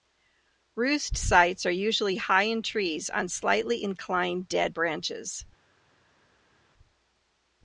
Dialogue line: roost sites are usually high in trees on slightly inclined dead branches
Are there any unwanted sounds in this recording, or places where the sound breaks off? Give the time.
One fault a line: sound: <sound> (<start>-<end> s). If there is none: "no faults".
no faults